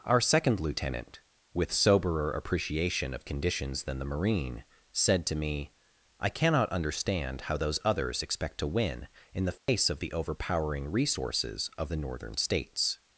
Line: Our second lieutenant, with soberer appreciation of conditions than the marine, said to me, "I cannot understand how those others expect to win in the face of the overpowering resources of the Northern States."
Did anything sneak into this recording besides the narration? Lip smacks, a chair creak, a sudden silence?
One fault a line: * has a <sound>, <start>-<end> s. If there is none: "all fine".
* has a dropout, 9.6-9.7 s